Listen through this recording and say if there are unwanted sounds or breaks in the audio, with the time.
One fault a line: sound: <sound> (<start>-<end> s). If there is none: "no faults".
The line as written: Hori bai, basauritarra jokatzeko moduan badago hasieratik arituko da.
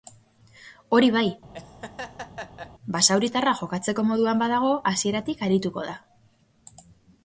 sound: laugh (1.5-2.7 s)